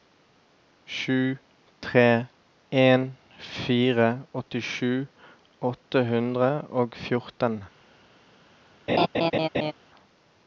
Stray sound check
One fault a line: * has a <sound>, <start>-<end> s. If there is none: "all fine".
* has a laugh, 8.9-9.7 s